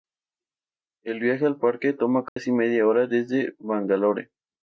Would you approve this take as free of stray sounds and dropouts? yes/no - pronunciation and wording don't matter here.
no